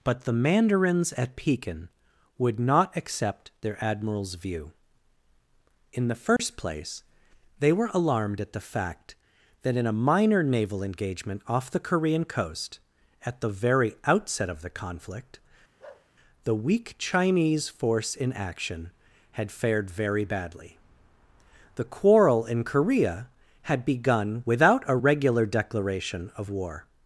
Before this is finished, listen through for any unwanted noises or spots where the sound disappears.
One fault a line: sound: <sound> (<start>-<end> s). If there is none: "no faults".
sound: dropout (6.4-6.4 s)
sound: bark (15.8-16.1 s)